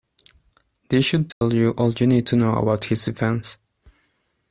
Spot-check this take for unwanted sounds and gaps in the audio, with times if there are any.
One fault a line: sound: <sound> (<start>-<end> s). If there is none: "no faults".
sound: dropout (1.3-1.4 s)